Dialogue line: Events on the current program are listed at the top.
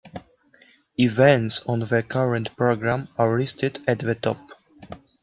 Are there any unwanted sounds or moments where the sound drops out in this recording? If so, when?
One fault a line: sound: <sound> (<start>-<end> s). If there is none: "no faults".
no faults